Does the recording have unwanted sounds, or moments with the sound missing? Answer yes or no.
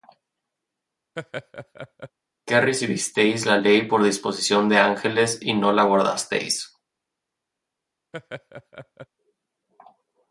yes